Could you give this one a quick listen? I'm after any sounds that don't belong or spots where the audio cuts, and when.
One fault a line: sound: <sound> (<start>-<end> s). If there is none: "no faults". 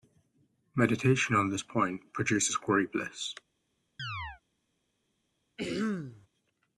sound: chirp (4.0-4.4 s)
sound: throat clearing (5.6-6.3 s)